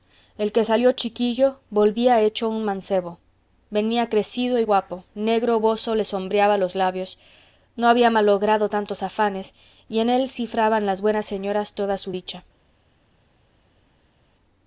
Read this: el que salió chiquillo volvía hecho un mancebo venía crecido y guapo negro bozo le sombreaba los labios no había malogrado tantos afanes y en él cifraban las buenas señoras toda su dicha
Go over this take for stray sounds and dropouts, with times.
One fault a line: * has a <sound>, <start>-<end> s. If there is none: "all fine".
all fine